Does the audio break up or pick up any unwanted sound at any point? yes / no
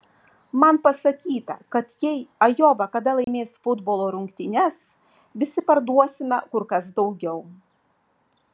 yes